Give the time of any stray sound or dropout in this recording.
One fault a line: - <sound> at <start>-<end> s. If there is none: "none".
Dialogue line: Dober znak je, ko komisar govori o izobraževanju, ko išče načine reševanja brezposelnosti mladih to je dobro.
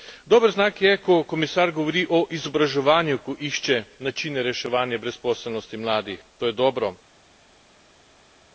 none